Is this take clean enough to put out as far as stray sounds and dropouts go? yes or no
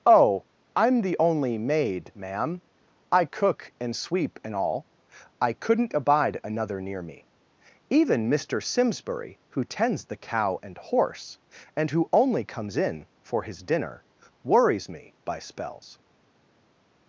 yes